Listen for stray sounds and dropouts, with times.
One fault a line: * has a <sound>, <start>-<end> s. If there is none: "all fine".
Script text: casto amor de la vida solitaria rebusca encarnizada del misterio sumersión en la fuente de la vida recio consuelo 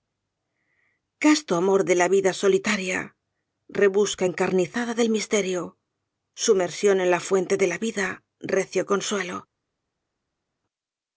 all fine